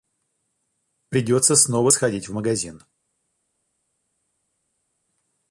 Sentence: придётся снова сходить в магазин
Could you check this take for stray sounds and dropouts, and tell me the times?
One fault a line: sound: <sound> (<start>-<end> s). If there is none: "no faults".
no faults